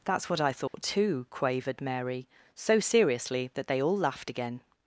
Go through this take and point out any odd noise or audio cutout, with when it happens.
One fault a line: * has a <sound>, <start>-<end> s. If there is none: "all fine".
* has a dropout, 0.7-0.7 s